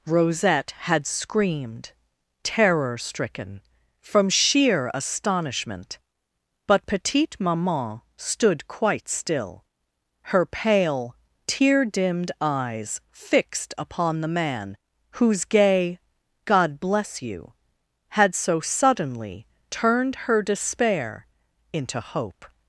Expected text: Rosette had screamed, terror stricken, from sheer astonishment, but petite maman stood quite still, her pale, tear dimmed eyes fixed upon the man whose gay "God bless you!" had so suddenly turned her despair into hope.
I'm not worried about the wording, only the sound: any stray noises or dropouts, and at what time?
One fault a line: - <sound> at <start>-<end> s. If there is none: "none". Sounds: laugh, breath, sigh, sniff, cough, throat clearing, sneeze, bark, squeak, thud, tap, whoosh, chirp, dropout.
none